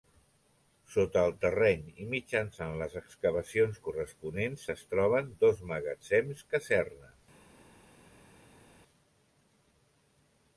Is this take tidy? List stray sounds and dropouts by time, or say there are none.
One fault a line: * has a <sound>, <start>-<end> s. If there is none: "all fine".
all fine